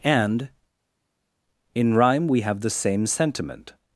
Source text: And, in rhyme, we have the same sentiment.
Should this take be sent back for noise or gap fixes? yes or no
no